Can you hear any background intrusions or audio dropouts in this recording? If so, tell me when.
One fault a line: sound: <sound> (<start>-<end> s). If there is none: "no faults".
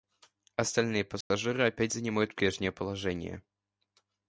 sound: dropout (1.2-1.3 s)